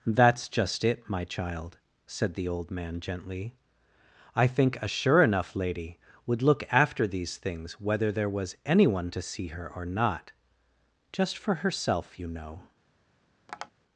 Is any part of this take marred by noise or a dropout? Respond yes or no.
yes